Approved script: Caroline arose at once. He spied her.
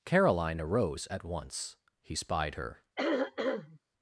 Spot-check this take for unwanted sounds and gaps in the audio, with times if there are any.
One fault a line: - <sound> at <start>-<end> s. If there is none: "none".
- throat clearing at 3.0-3.8 s